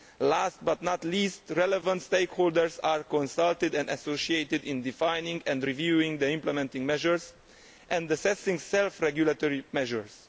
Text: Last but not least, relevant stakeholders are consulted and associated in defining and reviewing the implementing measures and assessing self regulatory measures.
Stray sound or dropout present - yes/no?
no